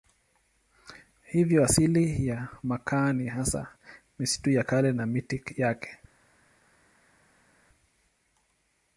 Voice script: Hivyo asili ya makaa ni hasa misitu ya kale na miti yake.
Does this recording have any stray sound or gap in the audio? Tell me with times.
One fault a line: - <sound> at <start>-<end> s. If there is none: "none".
none